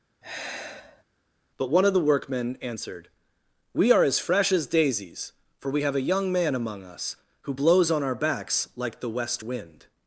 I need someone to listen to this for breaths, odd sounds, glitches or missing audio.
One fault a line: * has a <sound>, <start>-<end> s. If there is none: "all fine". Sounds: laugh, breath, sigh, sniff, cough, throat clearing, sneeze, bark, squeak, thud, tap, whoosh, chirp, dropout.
* has a sigh, 0.2-1.0 s